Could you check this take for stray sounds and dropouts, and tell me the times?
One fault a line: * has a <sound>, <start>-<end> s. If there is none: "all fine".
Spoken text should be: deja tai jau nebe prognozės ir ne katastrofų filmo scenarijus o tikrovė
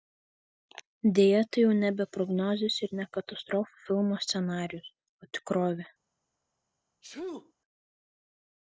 * has a sneeze, 7.0-7.5 s